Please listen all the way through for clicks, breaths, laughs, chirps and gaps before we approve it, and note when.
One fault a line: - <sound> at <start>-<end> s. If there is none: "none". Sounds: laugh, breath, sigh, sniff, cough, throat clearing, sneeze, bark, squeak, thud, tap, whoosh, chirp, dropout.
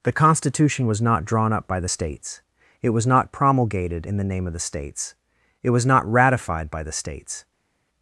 none